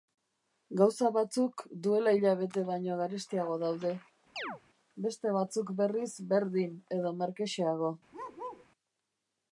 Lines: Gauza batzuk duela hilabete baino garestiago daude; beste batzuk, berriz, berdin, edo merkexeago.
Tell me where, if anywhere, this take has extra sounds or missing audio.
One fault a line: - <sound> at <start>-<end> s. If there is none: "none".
- chirp at 4.4-4.6 s
- bark at 8.1-8.7 s